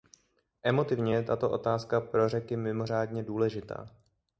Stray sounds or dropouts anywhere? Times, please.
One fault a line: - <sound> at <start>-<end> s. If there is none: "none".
none